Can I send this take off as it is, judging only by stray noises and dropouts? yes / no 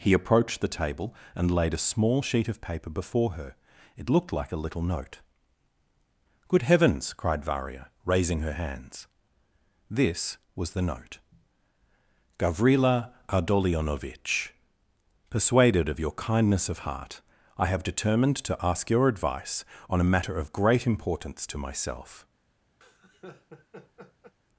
no